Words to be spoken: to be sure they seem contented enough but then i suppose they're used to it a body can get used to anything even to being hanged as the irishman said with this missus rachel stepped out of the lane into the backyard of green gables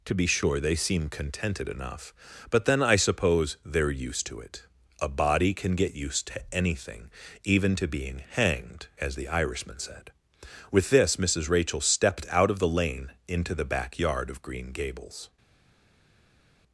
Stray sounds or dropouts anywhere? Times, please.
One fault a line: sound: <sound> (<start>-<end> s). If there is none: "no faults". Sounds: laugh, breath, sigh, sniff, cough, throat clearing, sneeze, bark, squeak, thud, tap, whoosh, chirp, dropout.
no faults